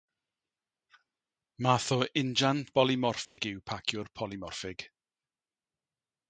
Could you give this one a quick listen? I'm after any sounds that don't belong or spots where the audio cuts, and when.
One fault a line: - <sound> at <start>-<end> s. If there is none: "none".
- dropout at 3.2-3.4 s